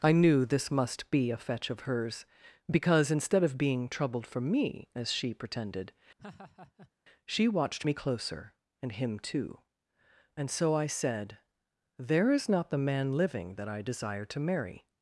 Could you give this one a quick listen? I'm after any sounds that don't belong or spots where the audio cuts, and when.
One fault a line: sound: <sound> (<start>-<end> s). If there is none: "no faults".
sound: laugh (6.2-6.9 s)